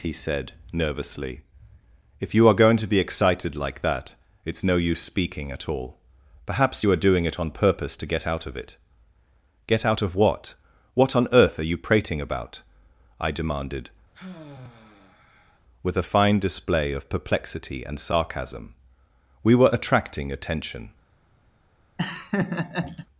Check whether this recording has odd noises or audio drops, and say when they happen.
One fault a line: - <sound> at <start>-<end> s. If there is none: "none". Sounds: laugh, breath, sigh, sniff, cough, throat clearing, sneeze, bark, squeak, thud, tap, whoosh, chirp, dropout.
- sigh at 14.1-15.6 s
- laugh at 22.0-23.1 s